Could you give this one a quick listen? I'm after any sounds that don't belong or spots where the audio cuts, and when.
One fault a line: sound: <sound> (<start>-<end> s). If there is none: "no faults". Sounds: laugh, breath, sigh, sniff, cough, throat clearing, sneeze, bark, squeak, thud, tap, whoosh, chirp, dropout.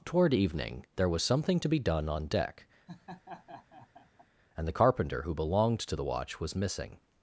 sound: laugh (2.9-4.3 s)